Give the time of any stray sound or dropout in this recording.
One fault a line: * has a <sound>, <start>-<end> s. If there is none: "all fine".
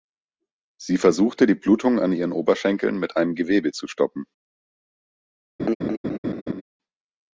* has a laugh, 5.6-6.6 s